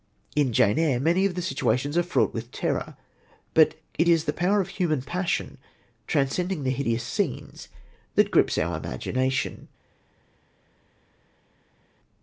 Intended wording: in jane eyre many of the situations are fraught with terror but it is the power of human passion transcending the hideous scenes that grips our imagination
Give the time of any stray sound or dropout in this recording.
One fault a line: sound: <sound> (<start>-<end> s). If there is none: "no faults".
no faults